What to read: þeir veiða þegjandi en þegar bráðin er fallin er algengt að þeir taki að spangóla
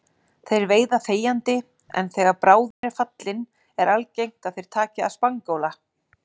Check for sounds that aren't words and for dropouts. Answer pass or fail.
fail